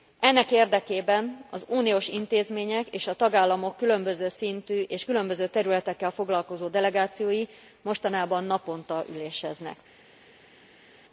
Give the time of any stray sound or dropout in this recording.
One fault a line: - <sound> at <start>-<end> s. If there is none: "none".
none